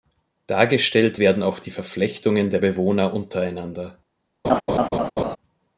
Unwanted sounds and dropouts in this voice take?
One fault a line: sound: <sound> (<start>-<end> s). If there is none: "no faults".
sound: laugh (4.4-5.4 s)